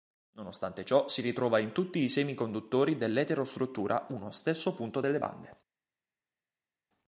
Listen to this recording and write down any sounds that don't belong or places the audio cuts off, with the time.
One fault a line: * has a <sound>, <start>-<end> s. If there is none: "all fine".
all fine